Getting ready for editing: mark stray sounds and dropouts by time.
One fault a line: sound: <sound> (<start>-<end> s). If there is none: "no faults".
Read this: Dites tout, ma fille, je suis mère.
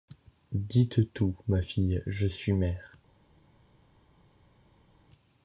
no faults